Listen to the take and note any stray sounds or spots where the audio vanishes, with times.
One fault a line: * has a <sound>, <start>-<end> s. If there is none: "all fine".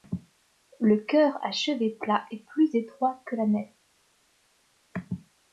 all fine